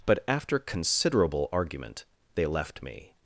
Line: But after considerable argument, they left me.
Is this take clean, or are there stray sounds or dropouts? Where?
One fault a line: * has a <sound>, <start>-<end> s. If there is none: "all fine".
all fine